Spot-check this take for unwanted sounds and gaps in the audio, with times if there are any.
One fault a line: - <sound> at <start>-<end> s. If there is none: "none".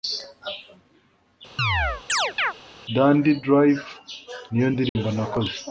- chirp at 1.6-2.5 s
- dropout at 4.9-5.0 s